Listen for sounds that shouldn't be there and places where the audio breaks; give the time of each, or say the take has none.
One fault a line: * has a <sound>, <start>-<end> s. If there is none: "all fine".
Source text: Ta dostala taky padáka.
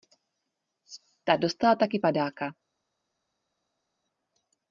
all fine